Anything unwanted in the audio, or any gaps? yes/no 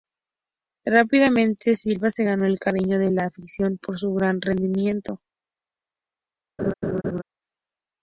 yes